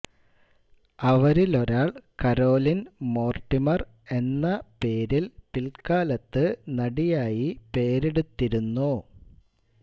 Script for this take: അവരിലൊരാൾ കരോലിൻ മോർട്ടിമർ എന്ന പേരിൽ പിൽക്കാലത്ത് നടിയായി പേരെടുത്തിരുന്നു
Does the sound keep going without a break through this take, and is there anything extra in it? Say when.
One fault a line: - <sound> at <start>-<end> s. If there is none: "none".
none